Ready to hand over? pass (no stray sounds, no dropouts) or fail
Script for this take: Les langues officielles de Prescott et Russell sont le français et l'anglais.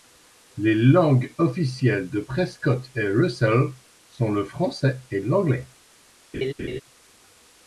fail